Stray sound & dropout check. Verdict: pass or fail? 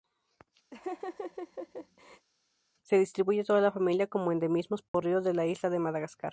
fail